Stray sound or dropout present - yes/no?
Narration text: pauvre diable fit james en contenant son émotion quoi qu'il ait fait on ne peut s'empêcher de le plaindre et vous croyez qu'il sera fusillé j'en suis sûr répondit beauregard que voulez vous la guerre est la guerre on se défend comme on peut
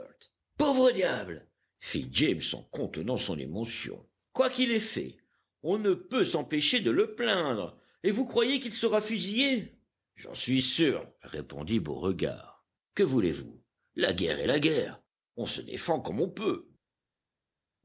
no